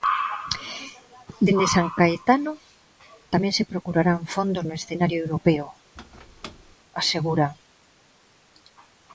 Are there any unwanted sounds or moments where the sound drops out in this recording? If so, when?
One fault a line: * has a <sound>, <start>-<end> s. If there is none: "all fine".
* has a squeak, 6.0-6.8 s